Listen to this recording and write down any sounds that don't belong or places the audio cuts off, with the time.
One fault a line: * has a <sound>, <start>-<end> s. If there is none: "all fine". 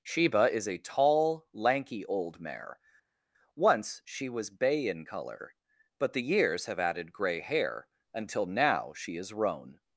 all fine